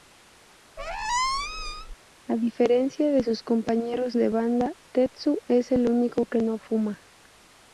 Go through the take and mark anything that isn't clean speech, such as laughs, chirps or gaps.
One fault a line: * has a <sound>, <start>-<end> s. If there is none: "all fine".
* has a squeak, 0.8-1.9 s